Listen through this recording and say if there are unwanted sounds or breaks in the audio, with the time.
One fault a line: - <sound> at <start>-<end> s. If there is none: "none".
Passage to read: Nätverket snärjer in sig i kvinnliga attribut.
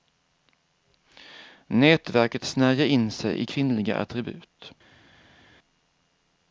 none